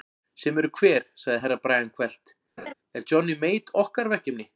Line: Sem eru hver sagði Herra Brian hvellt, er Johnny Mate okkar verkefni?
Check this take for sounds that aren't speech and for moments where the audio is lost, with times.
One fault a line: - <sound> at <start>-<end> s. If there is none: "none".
- laugh at 2.6-2.7 s